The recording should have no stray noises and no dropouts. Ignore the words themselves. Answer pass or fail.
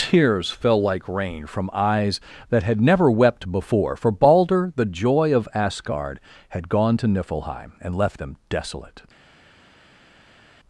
pass